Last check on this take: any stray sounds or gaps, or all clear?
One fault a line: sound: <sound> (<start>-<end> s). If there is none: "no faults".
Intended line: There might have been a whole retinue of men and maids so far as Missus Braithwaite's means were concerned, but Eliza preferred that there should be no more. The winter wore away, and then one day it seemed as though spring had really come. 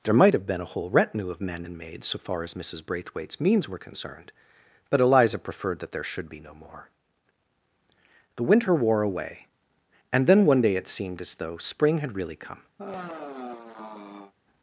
sound: sigh (12.8-14.3 s)